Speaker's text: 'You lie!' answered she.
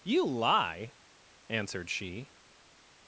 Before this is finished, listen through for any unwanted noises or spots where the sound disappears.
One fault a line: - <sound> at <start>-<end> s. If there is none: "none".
none